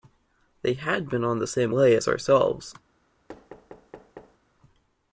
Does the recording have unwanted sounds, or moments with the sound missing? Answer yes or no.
yes